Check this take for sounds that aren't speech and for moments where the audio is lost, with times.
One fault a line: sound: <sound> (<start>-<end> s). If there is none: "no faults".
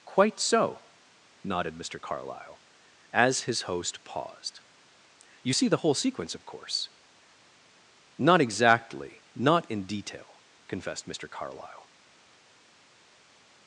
no faults